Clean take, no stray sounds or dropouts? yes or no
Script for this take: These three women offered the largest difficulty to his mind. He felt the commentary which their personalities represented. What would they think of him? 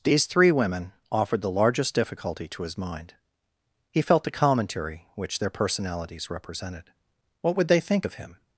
yes